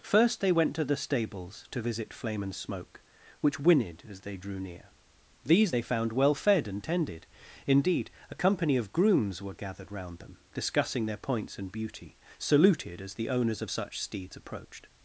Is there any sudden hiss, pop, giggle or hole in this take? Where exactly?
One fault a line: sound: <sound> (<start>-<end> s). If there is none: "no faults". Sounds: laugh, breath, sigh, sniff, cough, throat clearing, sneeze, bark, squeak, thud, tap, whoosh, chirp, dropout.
no faults